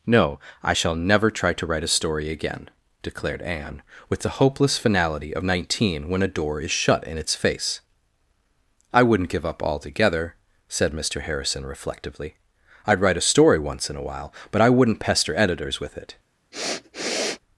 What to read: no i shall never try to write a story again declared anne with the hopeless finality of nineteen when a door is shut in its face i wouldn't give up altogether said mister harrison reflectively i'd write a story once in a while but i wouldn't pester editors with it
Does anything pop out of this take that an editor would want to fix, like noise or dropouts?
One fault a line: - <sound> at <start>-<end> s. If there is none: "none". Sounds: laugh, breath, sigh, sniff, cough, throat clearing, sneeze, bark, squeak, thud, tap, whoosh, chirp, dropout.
- sniff at 16.5-17.4 s